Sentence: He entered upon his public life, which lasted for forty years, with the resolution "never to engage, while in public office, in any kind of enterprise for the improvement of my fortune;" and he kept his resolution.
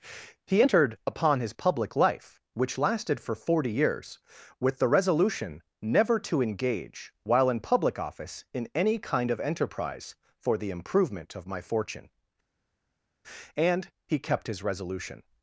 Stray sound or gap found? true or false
false